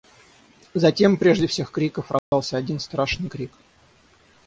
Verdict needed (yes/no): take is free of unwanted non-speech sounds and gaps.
no